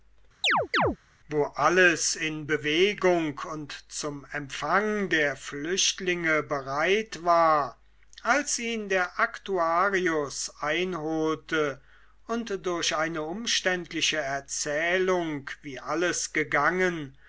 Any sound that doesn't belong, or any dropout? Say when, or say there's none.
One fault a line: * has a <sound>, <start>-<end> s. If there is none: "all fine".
* has a chirp, 0.4-1.0 s